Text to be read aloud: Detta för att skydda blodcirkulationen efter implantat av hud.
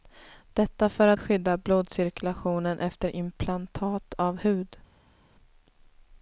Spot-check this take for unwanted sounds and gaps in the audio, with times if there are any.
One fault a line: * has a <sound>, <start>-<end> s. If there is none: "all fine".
all fine